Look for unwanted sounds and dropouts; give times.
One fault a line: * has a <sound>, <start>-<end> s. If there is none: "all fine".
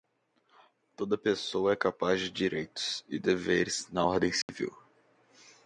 * has a dropout, 4.4-4.5 s